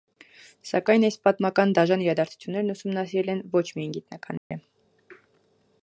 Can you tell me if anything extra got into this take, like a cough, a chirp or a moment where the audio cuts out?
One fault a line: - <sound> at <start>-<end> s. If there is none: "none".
- dropout at 4.4-4.5 s